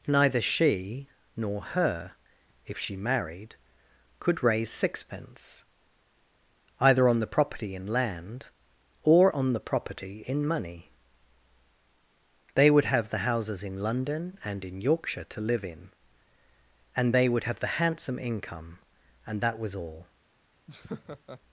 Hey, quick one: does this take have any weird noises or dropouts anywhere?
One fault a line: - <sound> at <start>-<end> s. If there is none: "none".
- laugh at 20.7-21.4 s